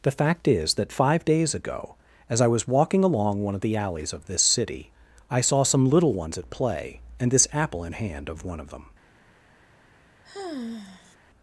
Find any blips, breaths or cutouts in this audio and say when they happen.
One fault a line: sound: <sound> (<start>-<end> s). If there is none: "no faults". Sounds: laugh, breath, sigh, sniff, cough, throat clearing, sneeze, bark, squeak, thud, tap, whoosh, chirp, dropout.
sound: sigh (10.2-11.2 s)